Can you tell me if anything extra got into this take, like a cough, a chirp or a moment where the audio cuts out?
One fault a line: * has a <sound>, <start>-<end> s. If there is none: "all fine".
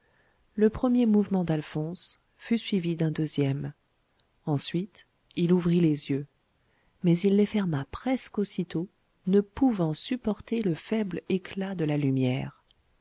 all fine